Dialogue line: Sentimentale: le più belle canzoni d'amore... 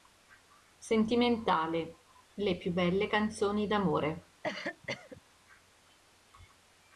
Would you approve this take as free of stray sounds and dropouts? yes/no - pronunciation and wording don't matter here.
no